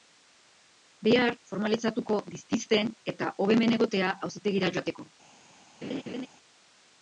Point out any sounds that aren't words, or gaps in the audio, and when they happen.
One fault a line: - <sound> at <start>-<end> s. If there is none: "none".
- laugh at 5.8-6.3 s